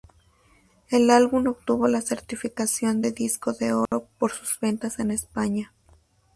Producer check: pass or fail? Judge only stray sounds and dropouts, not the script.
fail